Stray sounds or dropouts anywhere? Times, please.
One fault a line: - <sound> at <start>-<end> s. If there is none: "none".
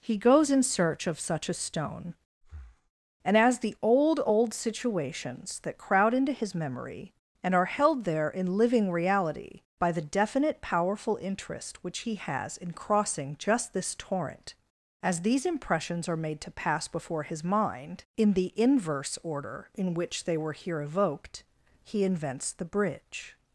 - breath at 2.4-2.9 s